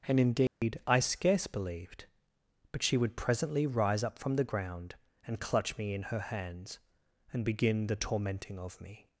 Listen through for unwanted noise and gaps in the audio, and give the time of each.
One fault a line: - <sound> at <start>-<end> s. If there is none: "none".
- dropout at 0.5-0.6 s